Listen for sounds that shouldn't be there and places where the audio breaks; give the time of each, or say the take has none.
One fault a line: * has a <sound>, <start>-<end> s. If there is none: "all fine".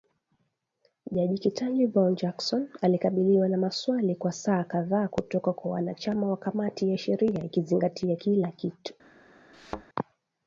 * has a thud, 9.5-9.9 s